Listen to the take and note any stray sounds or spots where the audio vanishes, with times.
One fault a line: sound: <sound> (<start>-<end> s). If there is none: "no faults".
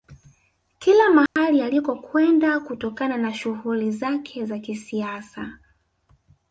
sound: dropout (1.3-1.4 s)